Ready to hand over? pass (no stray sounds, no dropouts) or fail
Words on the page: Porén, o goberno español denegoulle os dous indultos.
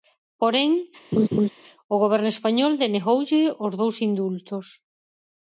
fail